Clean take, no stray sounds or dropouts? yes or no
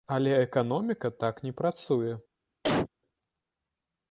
no